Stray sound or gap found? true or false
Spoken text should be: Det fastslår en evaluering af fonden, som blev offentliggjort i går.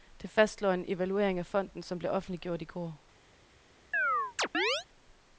true